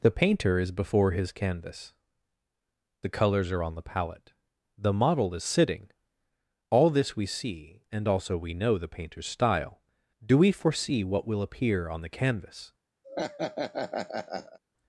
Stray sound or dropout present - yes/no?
yes